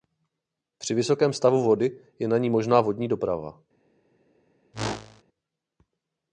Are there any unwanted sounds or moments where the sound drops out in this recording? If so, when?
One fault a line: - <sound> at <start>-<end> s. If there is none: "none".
- whoosh at 4.7-5.2 s